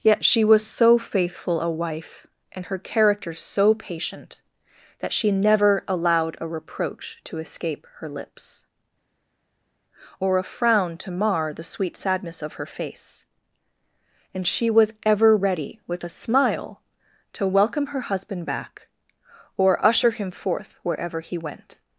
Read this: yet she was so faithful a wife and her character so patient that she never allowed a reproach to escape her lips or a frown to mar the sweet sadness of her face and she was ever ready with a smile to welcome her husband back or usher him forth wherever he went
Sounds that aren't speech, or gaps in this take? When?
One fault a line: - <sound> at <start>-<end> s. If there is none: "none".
none